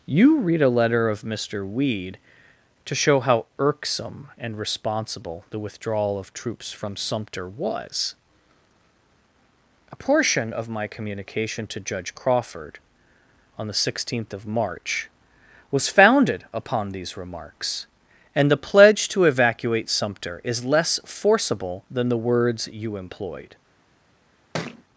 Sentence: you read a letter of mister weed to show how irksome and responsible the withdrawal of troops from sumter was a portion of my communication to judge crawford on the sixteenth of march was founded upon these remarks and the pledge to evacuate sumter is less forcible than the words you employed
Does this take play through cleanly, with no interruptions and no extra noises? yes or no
no